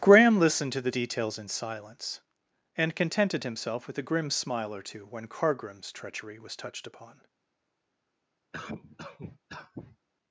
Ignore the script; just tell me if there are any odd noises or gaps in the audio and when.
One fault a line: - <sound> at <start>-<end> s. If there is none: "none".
- cough at 8.5-10.0 s